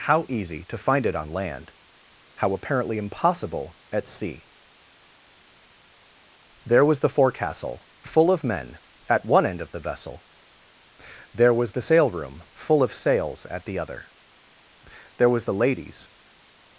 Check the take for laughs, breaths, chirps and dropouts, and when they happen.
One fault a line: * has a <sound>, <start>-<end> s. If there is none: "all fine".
all fine